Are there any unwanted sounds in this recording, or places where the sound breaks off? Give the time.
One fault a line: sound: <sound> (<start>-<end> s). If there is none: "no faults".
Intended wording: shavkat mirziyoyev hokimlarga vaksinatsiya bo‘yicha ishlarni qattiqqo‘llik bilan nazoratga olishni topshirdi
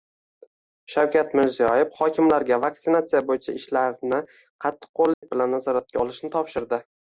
sound: dropout (5.1-5.2 s)